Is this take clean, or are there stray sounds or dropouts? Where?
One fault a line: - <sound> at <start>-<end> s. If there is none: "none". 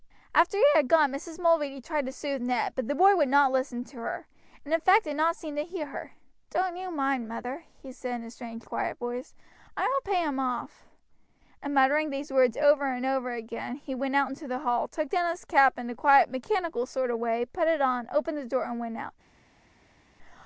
none